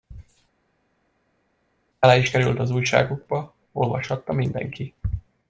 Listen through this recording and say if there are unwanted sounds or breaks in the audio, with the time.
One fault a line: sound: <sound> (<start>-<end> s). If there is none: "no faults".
no faults